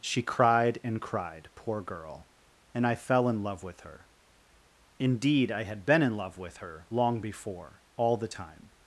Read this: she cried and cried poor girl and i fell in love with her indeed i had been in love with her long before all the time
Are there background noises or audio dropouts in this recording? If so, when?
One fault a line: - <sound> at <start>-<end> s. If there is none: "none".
none